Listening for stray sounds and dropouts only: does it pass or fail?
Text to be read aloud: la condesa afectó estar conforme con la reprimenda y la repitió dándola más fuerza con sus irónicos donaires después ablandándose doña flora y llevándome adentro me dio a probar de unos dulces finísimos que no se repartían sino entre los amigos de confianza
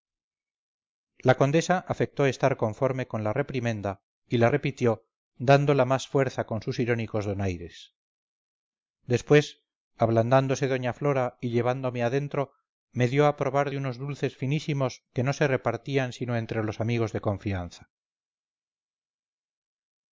pass